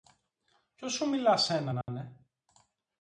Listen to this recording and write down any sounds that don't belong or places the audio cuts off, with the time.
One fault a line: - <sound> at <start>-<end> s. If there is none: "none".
- dropout at 1.8-1.9 s